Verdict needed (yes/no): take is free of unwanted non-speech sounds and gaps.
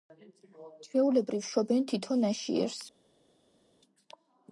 yes